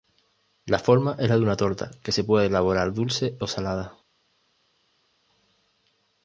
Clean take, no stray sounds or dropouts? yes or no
yes